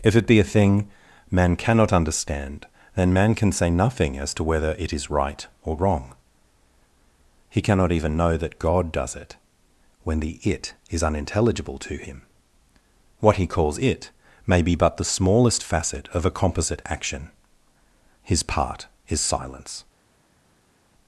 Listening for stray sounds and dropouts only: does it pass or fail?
pass